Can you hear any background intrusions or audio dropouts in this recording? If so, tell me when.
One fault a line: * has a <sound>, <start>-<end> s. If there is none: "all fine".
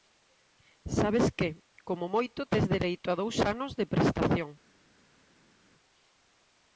all fine